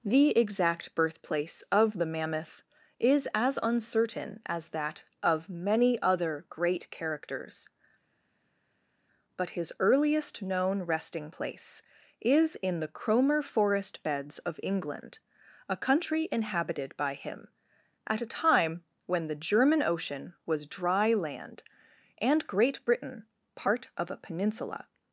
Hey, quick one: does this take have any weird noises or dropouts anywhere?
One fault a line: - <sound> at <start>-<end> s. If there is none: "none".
none